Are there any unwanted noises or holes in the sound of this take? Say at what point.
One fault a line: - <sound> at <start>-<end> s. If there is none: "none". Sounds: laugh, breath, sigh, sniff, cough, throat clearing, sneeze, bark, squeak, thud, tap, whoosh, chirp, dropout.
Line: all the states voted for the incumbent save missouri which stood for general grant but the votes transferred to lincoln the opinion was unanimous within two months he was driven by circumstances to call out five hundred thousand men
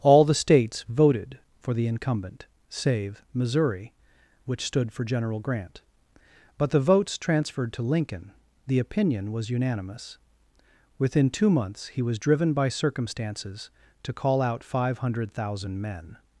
none